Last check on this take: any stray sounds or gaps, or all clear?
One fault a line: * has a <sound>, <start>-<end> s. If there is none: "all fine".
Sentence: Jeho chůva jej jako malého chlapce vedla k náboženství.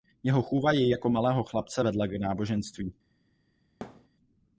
* has a thud, 3.8-4.1 s